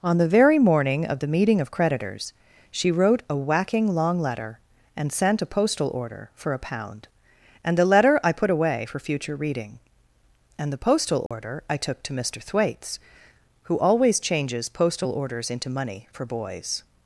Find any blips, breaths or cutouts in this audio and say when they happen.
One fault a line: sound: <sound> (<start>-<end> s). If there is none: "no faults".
sound: dropout (11.3-11.3 s)